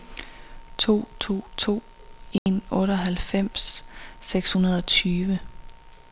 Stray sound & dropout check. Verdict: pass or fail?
fail